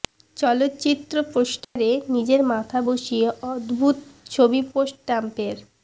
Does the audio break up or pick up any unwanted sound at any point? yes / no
yes